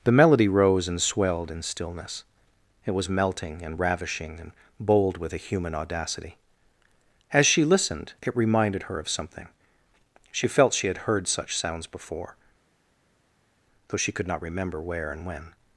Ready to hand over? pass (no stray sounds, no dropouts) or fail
pass